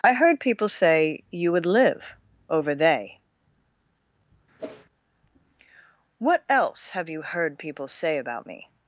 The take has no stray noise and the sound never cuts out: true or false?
false